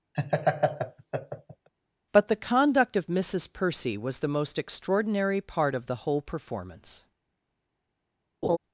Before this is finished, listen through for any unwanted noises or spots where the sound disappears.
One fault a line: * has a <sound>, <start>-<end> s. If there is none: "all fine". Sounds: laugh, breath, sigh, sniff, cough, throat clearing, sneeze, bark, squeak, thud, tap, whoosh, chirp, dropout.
* has a laugh, 0.1-1.7 s
* has a laugh, 8.4-8.6 s